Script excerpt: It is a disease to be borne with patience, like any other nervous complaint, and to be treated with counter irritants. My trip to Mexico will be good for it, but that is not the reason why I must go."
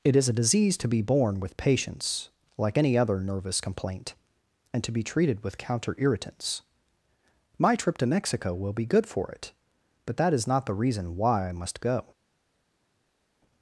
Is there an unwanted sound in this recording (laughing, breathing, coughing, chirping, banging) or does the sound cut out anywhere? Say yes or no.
no